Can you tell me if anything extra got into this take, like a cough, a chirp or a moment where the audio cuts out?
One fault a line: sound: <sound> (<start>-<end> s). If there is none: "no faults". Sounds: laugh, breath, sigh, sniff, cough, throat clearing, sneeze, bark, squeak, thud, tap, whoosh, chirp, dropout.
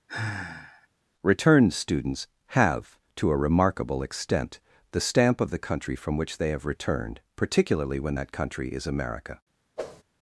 sound: sigh (0.1-0.9 s)
sound: whoosh (9.8-10.0 s)